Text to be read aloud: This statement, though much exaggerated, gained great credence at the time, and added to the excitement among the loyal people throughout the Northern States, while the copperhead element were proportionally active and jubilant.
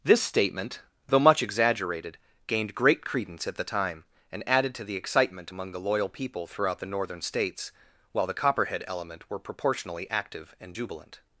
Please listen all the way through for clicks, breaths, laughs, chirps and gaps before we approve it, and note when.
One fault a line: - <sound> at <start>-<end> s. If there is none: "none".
none